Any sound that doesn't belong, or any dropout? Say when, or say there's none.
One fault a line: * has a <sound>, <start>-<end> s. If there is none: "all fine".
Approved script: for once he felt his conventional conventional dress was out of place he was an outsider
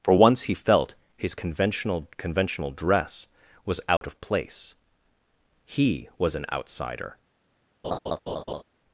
* has a dropout, 4.0-4.0 s
* has a laugh, 7.8-8.6 s